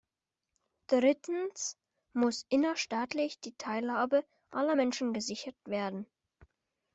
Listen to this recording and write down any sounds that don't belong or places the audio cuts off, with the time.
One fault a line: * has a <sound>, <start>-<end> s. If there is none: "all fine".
all fine